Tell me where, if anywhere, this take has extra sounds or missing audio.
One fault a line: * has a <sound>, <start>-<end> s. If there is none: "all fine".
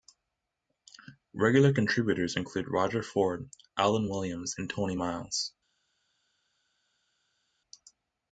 all fine